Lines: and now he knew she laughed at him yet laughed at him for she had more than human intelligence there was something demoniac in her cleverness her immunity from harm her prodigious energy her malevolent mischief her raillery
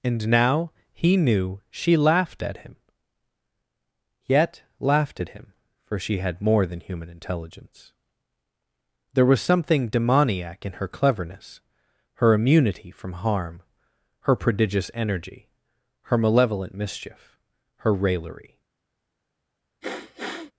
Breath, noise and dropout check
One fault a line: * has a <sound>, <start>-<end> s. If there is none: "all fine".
* has a sniff, 19.8-20.5 s